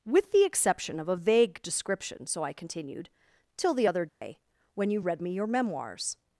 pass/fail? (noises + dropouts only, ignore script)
fail